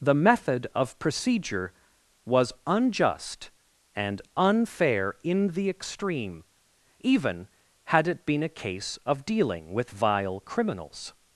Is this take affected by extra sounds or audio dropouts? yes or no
no